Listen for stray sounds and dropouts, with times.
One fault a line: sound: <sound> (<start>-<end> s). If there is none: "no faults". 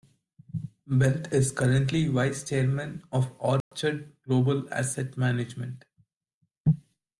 sound: dropout (3.6-3.7 s)